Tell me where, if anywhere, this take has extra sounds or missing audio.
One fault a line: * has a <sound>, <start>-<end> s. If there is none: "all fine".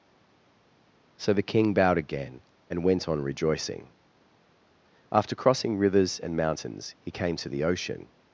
all fine